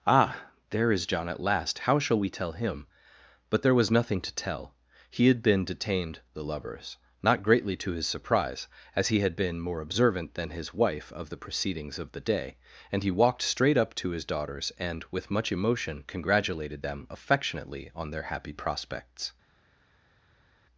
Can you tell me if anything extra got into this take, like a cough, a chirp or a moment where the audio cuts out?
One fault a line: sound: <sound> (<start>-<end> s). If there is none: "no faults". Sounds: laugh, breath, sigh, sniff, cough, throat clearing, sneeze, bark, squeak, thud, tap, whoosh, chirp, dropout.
no faults